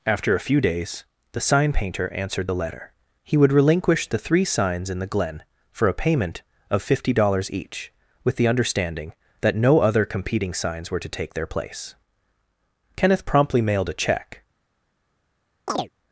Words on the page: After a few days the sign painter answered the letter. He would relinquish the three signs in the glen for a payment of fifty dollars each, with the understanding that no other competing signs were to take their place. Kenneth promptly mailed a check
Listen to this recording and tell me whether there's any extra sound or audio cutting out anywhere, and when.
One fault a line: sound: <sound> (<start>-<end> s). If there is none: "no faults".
sound: chirp (15.7-15.9 s)